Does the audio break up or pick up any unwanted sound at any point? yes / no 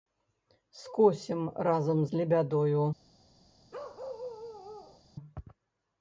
yes